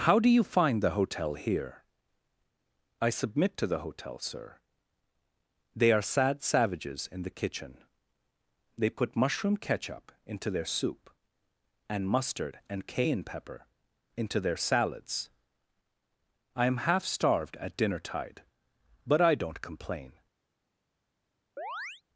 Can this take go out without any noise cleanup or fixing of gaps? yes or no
no